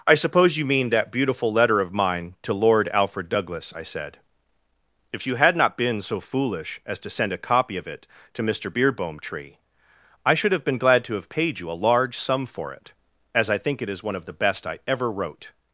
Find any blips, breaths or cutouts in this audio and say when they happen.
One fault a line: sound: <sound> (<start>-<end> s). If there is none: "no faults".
no faults